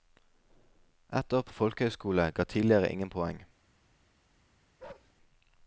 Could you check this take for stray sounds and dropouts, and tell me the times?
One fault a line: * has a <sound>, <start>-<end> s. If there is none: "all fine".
* has a bark, 4.8-5.1 s